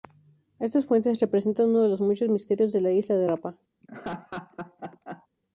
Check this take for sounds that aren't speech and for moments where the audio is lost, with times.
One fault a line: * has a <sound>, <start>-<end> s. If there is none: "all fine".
* has a laugh, 3.8-5.3 s